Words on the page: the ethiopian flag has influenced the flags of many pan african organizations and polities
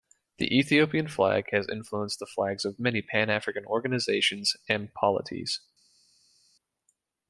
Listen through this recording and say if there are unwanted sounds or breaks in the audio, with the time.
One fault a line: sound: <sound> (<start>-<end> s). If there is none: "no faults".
no faults